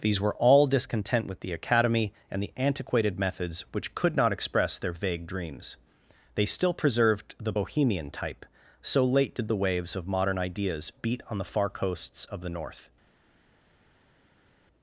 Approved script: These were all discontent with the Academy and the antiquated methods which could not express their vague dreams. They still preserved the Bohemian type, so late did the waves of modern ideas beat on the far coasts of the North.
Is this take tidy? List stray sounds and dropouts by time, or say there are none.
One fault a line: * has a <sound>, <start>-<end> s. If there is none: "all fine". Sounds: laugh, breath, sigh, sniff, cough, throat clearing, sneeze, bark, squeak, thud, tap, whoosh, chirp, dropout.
all fine